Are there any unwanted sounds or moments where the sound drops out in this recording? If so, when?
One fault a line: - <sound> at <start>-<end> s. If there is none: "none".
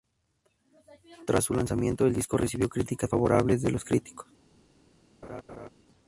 - laugh at 5.2-5.7 s